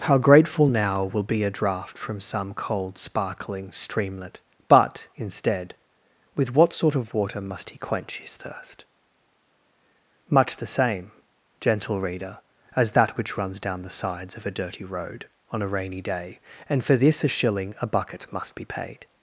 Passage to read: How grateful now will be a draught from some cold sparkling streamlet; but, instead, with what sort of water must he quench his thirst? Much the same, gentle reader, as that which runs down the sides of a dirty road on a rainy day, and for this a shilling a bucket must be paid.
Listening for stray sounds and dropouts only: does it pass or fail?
pass